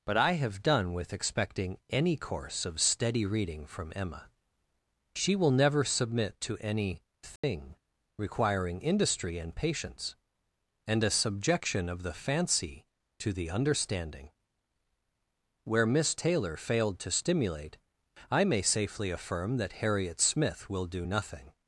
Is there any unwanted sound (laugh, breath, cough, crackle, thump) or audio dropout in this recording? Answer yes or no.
yes